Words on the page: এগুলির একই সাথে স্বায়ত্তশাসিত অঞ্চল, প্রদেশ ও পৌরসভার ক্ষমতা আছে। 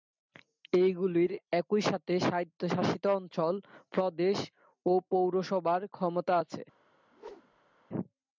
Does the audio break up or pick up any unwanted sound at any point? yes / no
yes